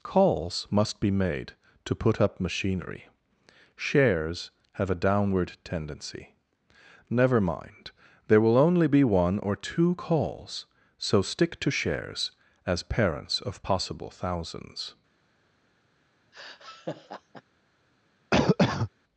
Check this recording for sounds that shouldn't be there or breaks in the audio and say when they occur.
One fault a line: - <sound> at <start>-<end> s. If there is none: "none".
- laugh at 16.3-17.4 s
- cough at 18.3-18.9 s